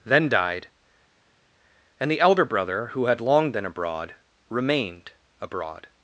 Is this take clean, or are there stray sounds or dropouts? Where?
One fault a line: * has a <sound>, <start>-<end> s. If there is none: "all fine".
all fine